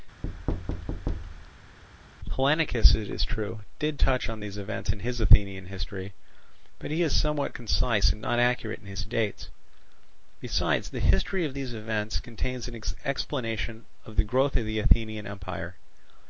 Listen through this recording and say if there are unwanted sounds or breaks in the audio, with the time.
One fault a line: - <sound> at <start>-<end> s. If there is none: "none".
- thud at 0.2-1.8 s